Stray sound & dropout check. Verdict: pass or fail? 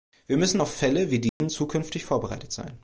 fail